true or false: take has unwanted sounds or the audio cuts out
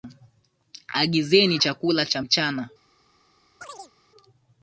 true